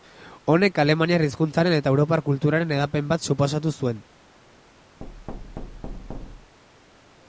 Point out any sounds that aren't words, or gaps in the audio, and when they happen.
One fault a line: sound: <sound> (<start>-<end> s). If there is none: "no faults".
sound: thud (5.0-6.6 s)